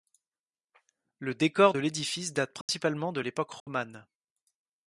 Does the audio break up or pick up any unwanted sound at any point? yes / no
yes